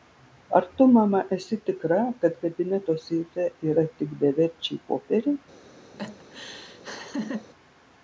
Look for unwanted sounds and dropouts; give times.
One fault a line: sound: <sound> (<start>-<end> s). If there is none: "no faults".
sound: laugh (5.9-7.5 s)